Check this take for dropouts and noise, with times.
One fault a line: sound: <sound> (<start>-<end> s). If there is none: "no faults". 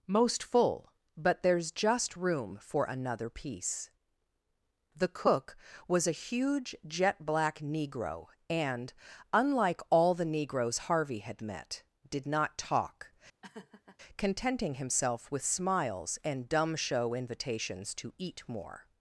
sound: laugh (13.4-14.0 s)